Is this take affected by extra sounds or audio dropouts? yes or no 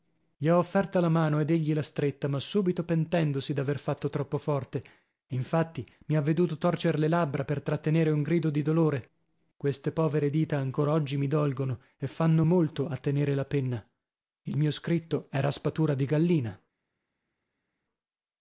no